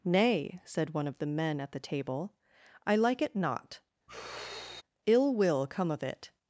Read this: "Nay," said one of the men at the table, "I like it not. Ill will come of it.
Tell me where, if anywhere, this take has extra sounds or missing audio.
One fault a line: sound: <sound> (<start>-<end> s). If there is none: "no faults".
sound: sigh (4.1-4.8 s)